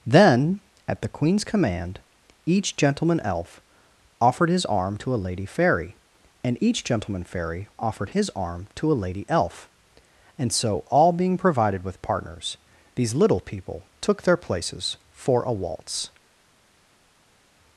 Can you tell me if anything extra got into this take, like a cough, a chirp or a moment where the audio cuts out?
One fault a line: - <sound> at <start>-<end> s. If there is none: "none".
none